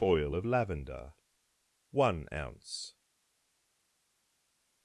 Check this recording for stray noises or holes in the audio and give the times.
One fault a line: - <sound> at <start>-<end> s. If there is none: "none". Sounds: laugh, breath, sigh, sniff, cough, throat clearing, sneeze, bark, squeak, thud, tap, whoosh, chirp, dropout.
none